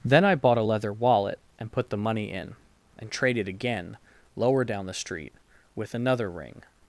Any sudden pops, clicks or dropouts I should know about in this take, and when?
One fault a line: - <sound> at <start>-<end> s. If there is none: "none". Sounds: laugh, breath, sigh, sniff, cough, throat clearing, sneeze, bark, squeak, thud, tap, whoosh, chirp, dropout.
none